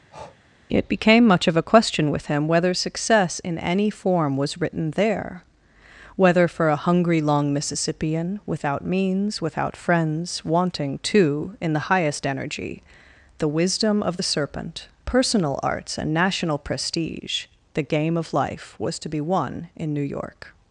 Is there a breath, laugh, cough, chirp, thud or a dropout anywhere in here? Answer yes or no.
yes